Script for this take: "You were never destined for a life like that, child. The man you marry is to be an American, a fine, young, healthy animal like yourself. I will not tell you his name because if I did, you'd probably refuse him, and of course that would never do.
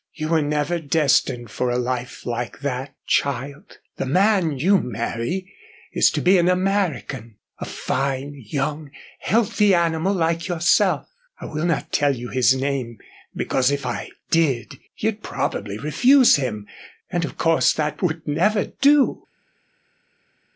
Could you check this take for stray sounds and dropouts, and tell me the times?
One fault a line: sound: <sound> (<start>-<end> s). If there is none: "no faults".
no faults